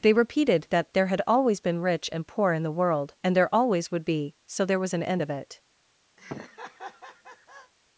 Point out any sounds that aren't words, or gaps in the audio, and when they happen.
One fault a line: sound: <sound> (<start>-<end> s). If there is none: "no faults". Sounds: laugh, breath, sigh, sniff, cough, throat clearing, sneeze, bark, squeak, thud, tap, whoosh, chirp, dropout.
sound: laugh (6.2-7.7 s)